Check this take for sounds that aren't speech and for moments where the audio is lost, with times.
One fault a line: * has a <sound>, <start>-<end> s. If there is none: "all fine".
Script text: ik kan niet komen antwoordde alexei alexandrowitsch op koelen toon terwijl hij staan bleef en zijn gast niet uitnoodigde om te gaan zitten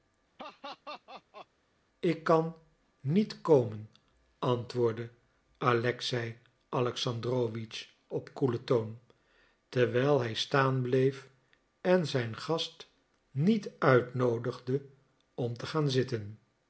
* has a laugh, 0.4-1.5 s